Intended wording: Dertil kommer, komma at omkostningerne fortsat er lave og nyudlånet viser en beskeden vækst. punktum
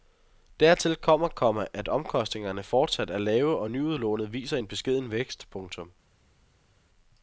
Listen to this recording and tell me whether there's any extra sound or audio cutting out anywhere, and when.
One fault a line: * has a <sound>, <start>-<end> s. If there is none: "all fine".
all fine